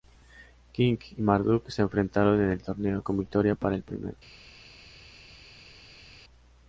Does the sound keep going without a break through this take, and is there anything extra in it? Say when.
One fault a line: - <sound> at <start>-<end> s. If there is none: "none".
none